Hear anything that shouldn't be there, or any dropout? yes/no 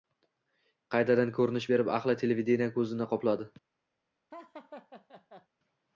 yes